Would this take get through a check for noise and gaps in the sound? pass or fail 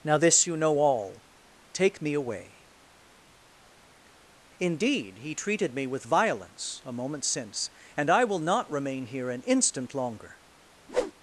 fail